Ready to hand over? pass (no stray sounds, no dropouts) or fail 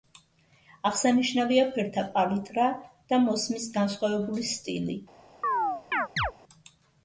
fail